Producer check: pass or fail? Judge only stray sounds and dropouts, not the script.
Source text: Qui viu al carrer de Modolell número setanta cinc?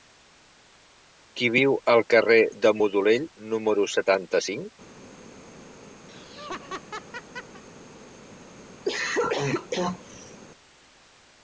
fail